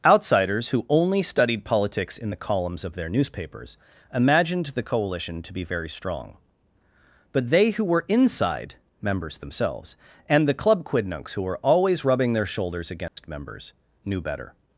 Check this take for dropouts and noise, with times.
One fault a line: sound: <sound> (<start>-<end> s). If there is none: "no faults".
sound: dropout (13.1-13.2 s)